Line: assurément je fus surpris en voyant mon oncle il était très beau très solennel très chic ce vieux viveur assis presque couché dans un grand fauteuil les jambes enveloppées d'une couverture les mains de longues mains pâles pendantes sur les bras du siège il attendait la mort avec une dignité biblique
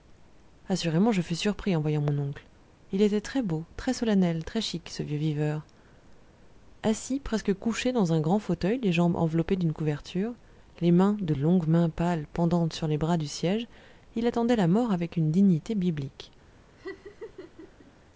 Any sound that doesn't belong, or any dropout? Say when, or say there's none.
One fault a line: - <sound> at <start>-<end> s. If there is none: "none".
- laugh at 16.8-17.9 s